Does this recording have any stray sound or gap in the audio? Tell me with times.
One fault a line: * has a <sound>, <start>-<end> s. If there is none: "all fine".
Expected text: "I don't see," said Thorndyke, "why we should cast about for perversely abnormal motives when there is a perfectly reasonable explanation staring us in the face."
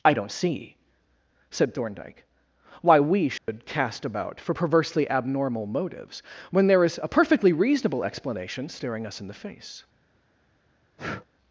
* has a dropout, 3.4-3.5 s
* has a breath, 11.0-11.3 s